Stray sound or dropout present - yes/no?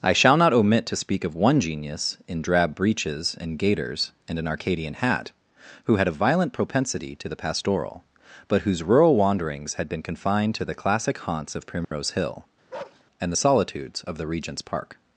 yes